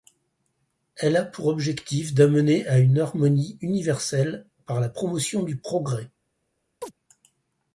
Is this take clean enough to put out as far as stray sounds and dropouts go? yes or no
no